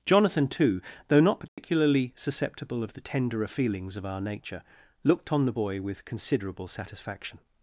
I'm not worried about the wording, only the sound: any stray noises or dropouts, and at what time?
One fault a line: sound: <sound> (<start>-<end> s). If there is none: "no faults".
sound: dropout (1.5-1.6 s)